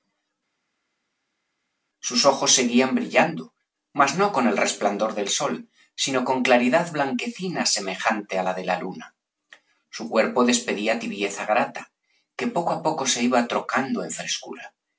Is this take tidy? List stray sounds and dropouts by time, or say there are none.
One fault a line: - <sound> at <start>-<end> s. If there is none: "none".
none